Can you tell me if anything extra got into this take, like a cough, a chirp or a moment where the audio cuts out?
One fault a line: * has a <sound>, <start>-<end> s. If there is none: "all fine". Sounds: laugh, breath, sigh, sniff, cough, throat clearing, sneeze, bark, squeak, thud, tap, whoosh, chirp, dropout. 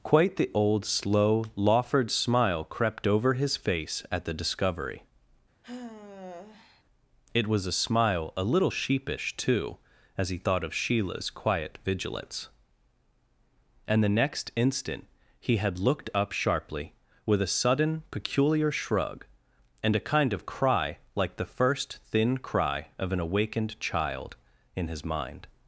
* has a sigh, 5.6-6.8 s